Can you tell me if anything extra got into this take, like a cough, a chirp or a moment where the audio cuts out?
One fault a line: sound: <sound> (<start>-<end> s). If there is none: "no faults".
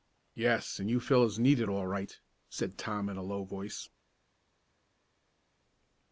no faults